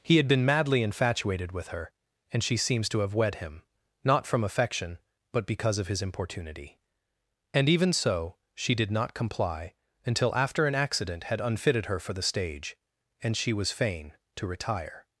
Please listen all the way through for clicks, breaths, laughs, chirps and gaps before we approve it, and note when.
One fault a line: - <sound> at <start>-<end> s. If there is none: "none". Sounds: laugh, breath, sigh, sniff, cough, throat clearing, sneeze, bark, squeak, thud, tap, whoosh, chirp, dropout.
none